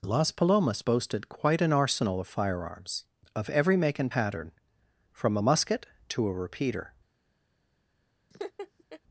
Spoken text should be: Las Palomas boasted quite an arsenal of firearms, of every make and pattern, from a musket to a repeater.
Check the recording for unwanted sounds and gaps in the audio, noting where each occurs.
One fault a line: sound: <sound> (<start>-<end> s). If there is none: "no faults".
sound: laugh (8.3-9.0 s)